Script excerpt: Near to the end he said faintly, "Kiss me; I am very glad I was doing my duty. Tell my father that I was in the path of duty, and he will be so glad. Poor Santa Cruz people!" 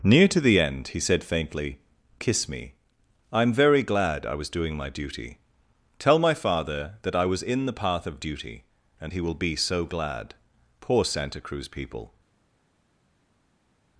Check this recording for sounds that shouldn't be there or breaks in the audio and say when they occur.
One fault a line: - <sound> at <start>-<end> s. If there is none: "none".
none